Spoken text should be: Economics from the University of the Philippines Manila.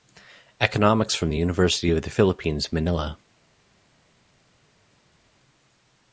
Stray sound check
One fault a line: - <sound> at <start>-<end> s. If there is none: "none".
none